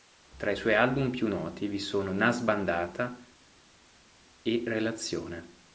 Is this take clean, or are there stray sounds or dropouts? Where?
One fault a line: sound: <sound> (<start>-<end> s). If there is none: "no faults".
no faults